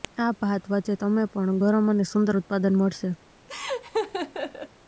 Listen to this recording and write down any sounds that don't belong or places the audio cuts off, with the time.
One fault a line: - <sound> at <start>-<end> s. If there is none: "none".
- laugh at 3.5-4.7 s